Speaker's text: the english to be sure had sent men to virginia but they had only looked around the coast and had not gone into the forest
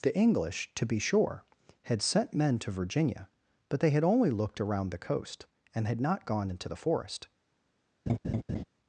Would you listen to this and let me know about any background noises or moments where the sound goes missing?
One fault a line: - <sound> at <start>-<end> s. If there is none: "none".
- laugh at 8.1-8.6 s